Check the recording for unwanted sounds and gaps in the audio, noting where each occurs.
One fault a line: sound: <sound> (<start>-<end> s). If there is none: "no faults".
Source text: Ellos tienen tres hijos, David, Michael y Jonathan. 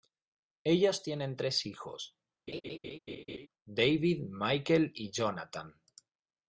sound: laugh (2.5-3.5 s)